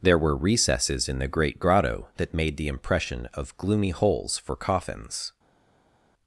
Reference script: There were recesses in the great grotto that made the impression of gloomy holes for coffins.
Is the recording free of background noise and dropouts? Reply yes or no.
yes